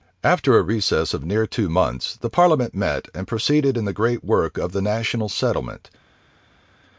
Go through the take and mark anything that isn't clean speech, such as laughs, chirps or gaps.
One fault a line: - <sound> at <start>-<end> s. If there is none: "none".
none